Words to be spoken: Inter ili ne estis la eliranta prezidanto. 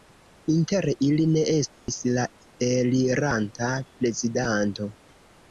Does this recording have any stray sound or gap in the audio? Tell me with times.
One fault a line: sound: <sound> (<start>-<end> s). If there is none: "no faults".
sound: dropout (1.7-1.9 s)